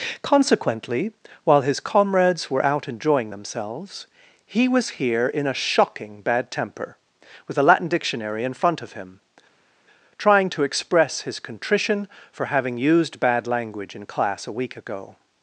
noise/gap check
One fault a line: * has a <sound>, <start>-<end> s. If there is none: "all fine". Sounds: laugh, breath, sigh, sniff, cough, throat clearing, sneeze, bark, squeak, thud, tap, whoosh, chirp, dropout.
all fine